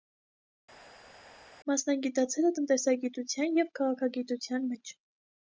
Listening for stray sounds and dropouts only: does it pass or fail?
pass